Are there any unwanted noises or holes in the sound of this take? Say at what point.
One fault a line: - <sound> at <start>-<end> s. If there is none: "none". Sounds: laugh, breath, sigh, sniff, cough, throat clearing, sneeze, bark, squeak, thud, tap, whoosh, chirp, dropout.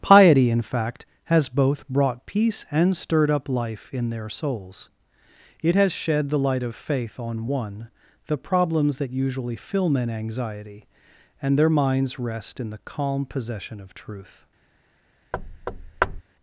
- thud at 15.3-16.2 s